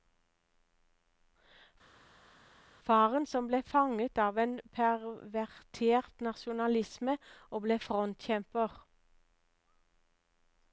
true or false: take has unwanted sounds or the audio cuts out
false